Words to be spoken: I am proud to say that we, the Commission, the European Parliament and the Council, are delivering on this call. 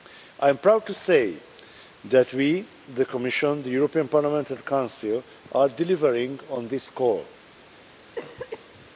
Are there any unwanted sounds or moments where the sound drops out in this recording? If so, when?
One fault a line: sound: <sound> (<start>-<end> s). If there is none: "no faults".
sound: cough (8.2-8.9 s)